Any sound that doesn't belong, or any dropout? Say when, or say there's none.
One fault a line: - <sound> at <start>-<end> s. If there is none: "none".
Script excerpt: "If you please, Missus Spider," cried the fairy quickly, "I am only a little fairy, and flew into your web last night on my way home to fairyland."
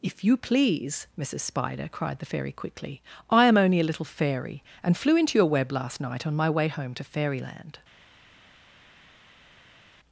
none